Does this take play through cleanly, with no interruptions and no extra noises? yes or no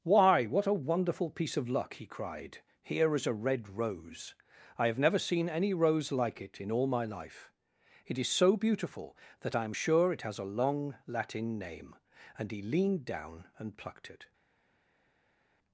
yes